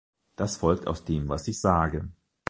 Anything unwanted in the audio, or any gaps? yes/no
no